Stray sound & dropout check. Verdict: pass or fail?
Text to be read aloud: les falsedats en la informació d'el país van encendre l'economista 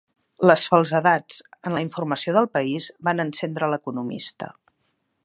pass